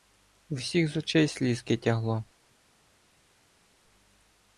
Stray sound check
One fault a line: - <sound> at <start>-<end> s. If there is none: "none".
none